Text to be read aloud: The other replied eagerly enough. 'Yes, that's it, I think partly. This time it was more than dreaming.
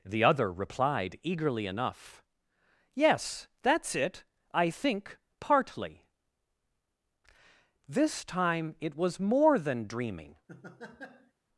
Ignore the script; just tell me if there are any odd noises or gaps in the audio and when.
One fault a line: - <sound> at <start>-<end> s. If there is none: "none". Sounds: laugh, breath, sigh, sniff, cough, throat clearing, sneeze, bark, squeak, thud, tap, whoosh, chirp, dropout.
- laugh at 10.5-11.3 s